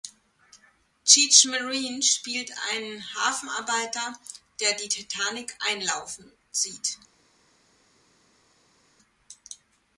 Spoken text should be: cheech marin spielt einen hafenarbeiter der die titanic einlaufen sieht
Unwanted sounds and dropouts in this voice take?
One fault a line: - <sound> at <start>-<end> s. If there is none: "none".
none